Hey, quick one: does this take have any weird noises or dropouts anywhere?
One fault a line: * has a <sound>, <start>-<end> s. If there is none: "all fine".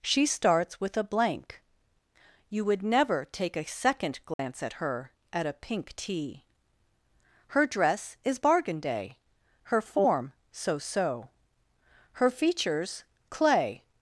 * has a dropout, 4.3-4.4 s